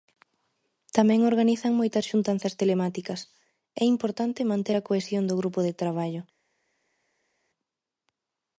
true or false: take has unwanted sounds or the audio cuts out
false